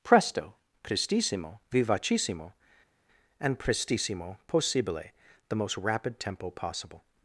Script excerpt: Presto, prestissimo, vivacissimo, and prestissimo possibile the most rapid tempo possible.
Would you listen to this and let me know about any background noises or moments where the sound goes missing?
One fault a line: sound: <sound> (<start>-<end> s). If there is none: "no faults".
no faults